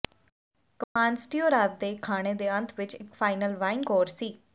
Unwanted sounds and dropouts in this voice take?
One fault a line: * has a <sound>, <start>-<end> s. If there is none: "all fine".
* has a dropout, 0.8-1.0 s